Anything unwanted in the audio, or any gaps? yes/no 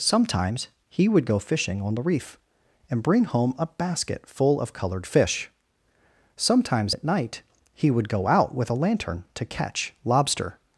no